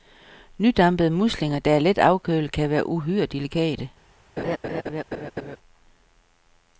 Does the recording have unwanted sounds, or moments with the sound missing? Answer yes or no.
yes